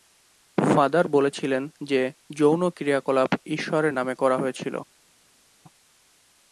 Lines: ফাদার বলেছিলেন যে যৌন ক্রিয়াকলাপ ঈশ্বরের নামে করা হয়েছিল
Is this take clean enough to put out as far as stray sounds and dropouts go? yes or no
yes